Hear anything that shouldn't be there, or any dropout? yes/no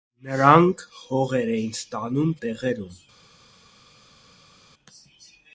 no